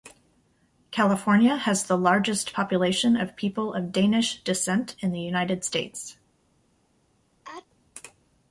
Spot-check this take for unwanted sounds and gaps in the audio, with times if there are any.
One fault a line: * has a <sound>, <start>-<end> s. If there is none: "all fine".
* has a sneeze, 7.4-7.7 s